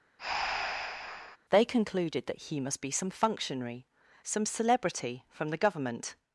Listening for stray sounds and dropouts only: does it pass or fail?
fail